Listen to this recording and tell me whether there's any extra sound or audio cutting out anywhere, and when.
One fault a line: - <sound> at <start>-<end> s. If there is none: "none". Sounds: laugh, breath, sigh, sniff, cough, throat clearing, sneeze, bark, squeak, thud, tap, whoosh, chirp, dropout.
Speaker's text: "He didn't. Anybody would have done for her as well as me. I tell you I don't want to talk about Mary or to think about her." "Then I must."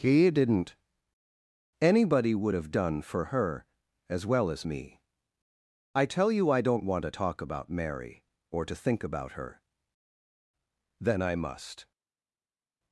none